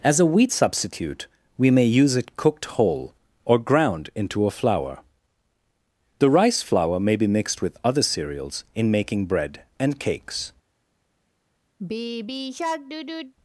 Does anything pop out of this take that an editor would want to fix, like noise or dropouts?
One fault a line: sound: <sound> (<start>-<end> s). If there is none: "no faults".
sound: sigh (11.8-13.3 s)